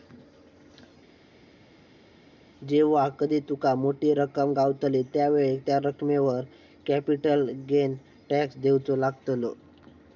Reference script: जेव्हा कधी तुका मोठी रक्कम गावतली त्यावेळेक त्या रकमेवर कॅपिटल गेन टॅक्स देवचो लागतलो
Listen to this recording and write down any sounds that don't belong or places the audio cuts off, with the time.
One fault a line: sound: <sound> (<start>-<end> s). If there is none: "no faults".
no faults